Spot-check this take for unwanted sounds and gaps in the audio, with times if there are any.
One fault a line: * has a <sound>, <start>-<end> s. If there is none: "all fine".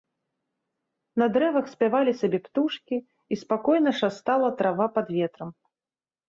all fine